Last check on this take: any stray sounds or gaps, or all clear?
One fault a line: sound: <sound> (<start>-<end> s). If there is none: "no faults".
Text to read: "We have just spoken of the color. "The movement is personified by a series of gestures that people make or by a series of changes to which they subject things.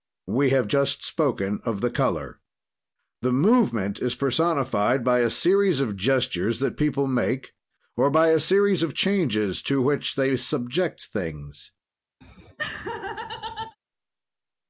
sound: laugh (12.2-13.8 s)